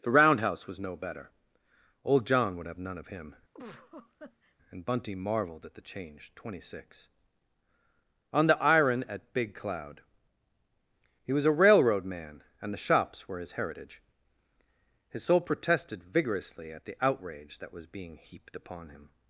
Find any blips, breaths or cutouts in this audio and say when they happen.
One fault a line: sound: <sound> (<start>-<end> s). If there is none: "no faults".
sound: laugh (3.5-4.6 s)